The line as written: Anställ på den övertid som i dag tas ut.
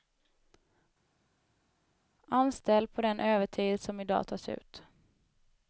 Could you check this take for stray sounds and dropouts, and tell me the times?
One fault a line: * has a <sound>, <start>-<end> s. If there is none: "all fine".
all fine